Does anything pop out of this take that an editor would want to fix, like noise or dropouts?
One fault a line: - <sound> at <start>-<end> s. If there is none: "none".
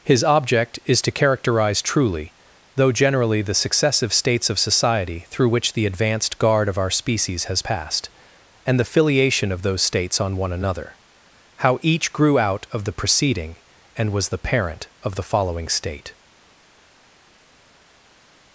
none